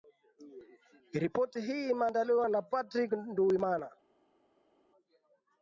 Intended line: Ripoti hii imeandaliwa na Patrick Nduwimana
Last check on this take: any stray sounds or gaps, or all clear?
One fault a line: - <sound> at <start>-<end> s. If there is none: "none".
none